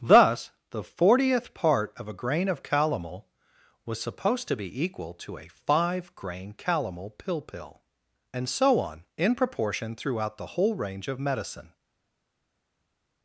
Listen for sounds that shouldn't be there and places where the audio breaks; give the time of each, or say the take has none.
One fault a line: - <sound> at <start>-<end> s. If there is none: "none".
none